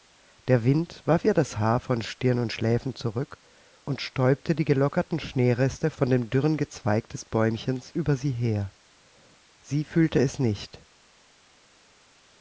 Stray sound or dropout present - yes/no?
no